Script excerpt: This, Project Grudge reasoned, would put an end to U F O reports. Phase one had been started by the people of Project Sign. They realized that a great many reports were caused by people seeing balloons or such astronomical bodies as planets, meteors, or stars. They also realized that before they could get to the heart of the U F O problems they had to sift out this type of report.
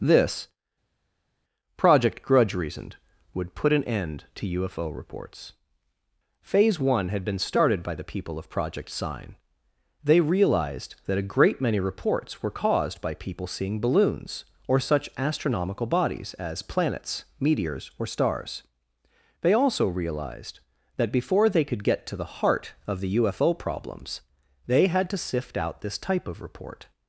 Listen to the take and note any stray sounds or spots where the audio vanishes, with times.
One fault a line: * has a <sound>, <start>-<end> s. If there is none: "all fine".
all fine